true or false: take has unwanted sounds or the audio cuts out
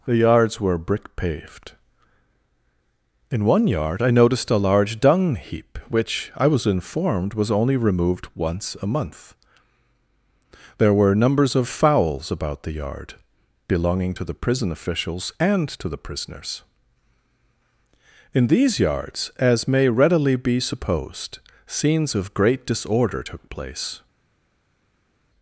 false